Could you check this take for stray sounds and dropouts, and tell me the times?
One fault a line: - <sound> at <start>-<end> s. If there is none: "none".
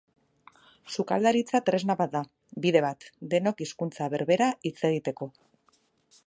none